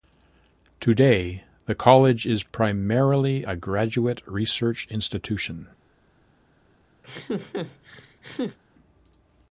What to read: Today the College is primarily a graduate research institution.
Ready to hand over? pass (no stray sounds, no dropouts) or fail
fail